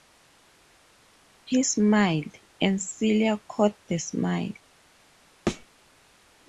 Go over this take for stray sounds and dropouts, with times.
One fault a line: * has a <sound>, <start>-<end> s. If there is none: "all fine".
* has a thud, 5.5-5.7 s